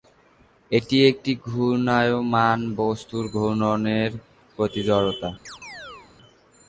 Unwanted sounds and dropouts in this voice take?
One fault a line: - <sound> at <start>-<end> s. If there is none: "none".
- chirp at 5.5-6.1 s